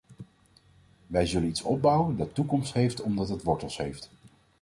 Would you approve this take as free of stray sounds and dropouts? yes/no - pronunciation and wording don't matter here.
yes